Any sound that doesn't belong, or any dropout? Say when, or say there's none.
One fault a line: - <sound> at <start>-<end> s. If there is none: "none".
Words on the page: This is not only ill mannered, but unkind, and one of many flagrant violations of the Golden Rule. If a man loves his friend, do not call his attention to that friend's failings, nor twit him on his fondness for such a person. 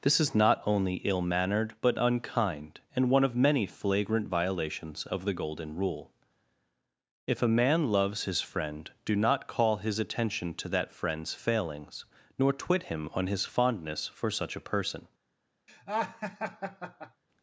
- laugh at 15.7-17.2 s